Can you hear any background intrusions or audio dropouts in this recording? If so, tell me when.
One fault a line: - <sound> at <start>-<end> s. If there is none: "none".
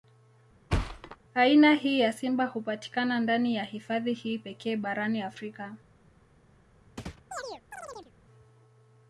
- thud at 0.7-1.2 s
- chirp at 7.0-8.1 s